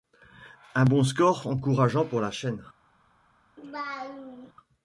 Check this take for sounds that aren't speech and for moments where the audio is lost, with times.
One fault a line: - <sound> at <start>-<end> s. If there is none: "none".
- laugh at 3.6-4.5 s